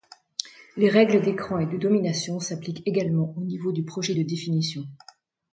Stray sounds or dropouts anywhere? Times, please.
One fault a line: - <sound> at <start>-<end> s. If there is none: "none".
none